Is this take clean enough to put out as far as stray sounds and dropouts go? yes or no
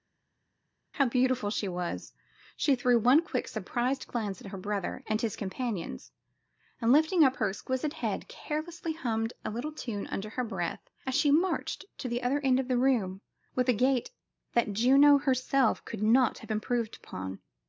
yes